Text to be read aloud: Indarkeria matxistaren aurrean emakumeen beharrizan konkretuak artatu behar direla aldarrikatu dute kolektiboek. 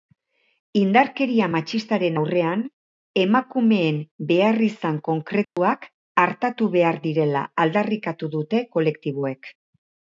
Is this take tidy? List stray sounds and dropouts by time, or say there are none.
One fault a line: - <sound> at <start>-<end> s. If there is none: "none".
- dropout at 5.4-5.6 s